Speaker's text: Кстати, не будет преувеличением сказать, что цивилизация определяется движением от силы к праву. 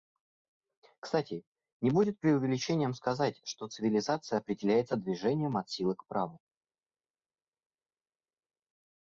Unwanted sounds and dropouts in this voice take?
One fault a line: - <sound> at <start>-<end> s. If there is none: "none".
none